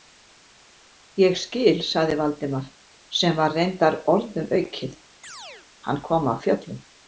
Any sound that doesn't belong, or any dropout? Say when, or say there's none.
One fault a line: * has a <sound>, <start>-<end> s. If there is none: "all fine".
* has a chirp, 5.2-5.7 s